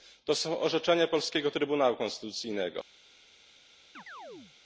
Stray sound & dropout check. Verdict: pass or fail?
fail